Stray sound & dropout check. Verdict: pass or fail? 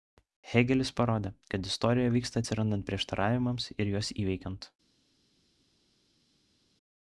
pass